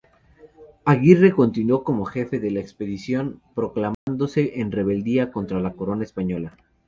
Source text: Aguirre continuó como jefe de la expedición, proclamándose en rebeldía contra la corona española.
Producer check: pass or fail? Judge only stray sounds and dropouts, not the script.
fail